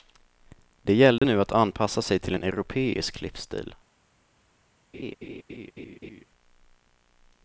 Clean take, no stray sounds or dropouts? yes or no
no